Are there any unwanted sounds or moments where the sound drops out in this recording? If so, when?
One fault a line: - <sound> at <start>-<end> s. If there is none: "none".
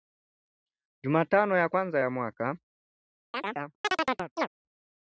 - chirp at 3.3-4.5 s